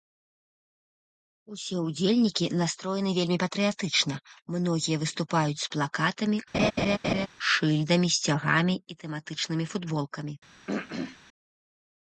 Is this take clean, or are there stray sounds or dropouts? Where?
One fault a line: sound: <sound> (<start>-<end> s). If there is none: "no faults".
sound: laugh (6.5-7.3 s)
sound: throat clearing (10.7-11.2 s)